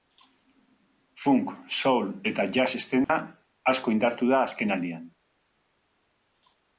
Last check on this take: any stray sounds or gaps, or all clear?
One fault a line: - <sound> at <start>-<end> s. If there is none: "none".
- dropout at 3.0-3.1 s